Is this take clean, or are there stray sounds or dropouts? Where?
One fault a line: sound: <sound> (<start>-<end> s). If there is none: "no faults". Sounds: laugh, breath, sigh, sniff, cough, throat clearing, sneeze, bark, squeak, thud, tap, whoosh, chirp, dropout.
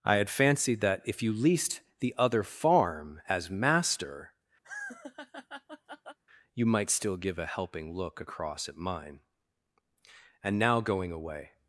sound: laugh (4.6-6.2 s)